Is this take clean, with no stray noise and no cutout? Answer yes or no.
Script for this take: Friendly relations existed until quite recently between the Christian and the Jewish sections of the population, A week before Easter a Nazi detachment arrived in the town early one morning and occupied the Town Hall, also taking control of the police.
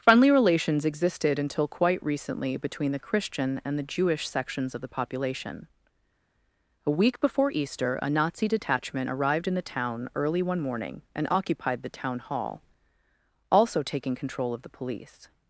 yes